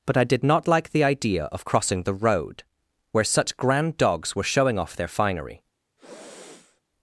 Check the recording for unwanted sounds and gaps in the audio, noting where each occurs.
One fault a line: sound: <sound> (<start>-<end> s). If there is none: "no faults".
sound: sniff (6.0-6.8 s)